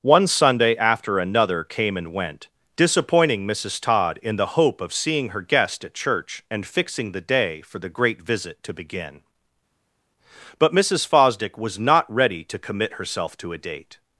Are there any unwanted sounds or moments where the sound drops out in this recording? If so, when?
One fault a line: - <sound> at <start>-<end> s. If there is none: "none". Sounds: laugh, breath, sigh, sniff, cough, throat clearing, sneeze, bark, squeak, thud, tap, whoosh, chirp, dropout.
none